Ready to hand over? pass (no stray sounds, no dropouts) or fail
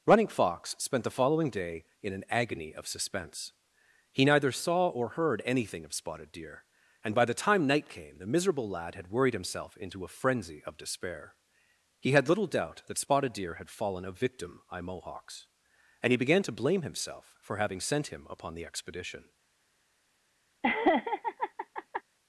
fail